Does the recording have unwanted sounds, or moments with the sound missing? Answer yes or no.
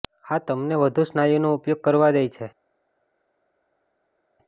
no